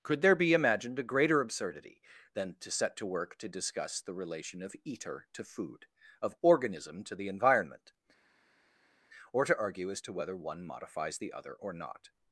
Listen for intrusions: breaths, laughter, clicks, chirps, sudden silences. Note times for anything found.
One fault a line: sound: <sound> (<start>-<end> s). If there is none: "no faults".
no faults